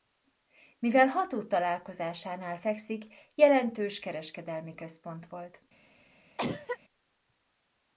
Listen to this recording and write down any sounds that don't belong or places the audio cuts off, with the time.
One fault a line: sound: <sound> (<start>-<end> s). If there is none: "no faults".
sound: cough (6.4-6.8 s)